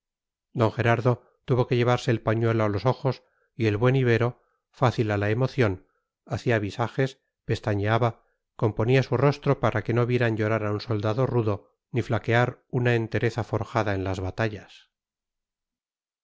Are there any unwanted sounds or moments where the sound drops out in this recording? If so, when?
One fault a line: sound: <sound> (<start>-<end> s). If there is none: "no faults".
no faults